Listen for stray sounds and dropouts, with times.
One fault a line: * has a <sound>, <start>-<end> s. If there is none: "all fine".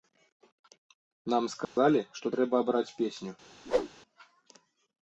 * has a dropout, 1.6-1.8 s
* has a whoosh, 3.6-3.9 s